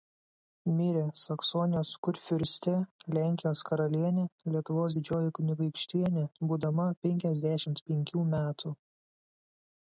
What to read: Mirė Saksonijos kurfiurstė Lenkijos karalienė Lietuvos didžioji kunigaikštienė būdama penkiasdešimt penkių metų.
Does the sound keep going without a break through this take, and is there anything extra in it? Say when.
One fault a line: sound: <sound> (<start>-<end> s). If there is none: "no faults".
no faults